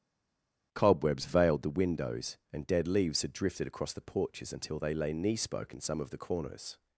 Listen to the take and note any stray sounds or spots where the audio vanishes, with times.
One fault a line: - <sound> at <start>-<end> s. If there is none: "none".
none